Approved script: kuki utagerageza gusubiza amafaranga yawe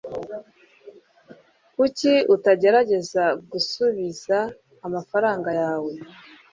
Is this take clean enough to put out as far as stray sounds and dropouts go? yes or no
yes